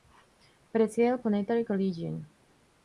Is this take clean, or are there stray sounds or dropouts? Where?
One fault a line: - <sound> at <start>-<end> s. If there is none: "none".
none